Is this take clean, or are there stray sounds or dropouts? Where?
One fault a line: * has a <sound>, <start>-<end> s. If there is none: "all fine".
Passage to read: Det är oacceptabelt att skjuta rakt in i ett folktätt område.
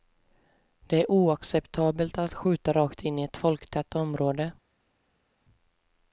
all fine